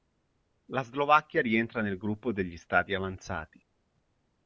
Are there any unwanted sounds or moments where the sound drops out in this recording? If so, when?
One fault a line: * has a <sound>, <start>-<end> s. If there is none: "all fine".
all fine